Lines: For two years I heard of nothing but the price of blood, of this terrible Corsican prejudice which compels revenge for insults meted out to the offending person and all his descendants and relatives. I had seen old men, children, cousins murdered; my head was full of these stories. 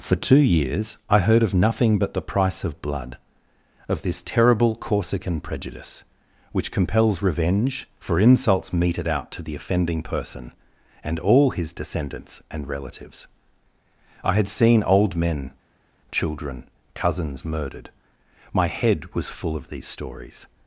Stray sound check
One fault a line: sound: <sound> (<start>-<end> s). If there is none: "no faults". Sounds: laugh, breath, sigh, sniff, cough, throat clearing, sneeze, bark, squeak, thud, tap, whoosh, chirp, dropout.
no faults